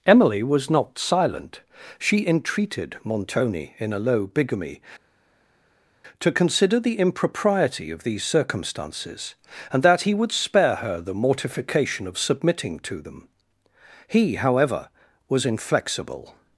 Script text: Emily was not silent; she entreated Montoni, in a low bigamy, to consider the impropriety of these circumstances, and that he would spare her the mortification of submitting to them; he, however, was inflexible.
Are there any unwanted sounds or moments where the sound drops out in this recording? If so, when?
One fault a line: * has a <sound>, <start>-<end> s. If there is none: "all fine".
all fine